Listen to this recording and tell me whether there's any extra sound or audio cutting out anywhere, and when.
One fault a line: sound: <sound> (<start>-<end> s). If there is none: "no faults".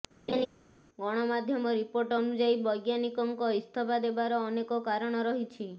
sound: laugh (0.3-0.5 s)